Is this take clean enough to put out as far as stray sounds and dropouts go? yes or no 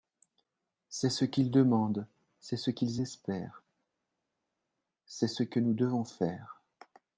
yes